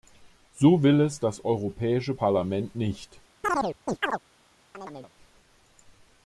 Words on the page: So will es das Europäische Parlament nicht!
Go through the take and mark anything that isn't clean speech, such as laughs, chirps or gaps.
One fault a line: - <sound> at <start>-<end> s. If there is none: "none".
- chirp at 3.4-4.2 s
- chirp at 4.7-5.1 s